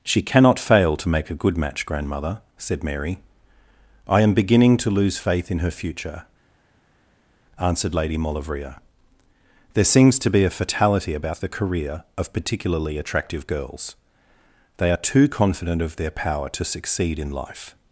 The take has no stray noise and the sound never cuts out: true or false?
true